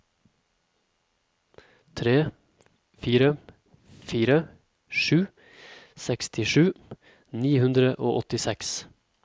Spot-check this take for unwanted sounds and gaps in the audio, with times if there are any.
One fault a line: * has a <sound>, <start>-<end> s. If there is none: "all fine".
all fine